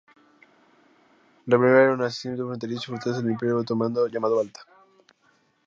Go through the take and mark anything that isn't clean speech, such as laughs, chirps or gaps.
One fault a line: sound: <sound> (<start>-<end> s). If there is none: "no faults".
no faults